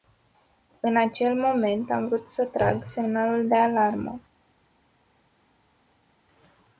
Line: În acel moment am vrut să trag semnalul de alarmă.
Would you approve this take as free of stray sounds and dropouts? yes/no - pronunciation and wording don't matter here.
yes